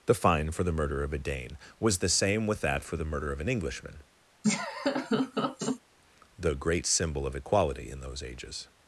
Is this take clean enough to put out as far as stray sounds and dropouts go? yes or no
no